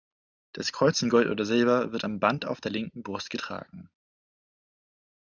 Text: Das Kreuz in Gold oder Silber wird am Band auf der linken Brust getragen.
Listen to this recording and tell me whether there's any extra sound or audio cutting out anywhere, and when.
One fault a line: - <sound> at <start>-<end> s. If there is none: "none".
none